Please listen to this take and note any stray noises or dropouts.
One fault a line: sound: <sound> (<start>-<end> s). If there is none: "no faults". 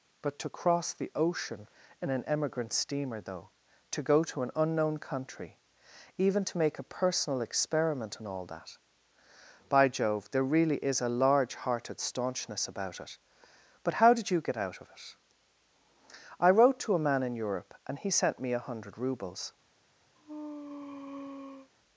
sound: sneeze (20.2-21.7 s)